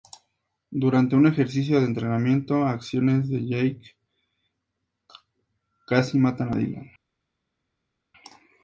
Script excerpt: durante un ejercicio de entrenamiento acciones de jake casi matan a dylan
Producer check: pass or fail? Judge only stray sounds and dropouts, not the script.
pass